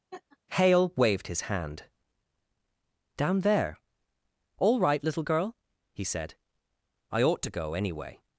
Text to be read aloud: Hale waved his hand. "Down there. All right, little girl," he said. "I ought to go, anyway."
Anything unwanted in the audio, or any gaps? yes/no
yes